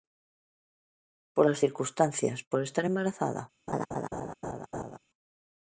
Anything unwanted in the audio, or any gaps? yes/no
yes